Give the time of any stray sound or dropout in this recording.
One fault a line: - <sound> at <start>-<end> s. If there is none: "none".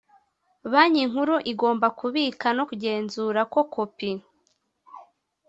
none